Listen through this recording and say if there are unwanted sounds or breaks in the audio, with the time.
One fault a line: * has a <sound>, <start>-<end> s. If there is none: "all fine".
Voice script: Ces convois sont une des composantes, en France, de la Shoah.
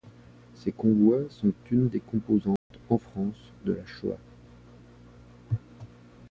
* has a dropout, 2.6-2.7 s